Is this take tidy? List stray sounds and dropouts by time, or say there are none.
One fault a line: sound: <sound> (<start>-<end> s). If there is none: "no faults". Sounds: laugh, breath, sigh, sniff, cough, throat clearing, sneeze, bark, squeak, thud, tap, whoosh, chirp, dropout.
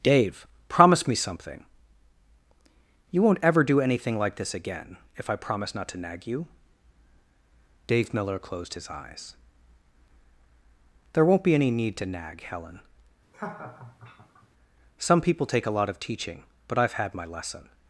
sound: laugh (13.3-14.5 s)